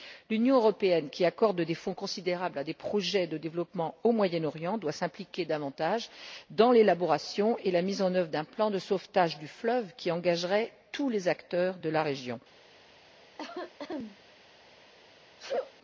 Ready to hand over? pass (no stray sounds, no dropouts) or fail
fail